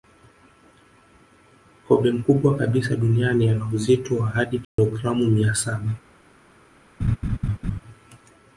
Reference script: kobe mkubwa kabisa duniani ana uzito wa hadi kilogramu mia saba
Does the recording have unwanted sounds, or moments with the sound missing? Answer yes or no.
yes